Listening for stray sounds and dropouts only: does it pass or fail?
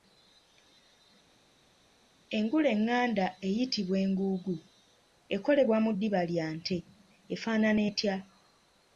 pass